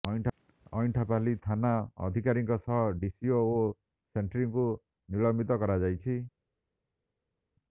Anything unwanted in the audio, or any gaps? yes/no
no